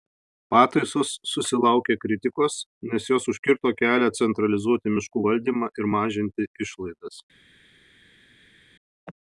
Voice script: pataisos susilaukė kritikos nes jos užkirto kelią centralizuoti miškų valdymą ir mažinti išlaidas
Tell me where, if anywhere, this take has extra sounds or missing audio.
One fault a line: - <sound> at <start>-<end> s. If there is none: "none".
none